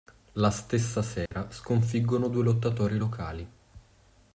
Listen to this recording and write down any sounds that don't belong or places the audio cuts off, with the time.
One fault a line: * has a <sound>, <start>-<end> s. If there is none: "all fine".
* has a dropout, 1.3-1.3 s